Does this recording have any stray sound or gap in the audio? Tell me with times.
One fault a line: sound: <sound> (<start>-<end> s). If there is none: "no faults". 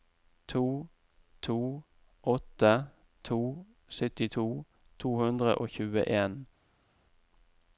no faults